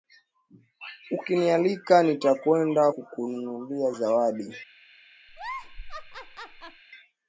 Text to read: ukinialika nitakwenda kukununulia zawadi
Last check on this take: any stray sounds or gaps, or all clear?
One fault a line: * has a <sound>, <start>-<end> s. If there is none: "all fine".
* has a laugh, 5.3-6.8 s